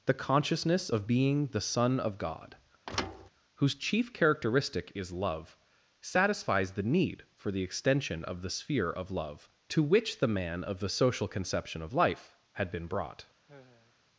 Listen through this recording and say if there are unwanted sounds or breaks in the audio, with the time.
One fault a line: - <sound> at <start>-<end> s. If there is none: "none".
- thud at 2.9-3.3 s
- sigh at 13.5-14.0 s